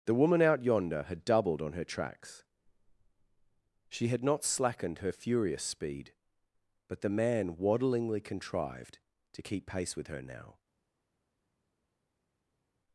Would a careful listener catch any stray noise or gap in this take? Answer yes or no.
no